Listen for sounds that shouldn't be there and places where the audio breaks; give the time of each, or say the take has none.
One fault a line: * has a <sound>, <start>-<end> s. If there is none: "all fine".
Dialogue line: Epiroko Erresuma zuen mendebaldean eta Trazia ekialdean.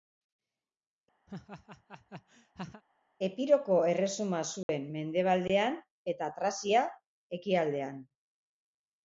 * has a laugh, 1.3-2.8 s
* has a dropout, 4.6-4.7 s